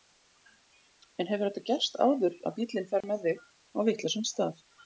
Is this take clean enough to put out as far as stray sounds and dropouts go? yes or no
no